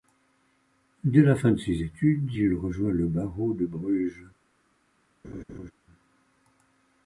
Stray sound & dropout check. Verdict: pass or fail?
fail